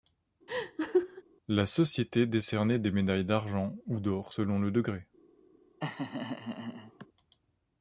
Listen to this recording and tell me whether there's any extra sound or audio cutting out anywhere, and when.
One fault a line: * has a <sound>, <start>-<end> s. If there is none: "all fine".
* has a laugh, 0.5-1.2 s
* has a laugh, 5.8-7.1 s